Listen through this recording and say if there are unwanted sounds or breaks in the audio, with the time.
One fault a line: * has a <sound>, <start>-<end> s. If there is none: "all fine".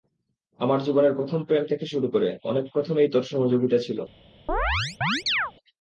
* has a chirp, 4.5-5.5 s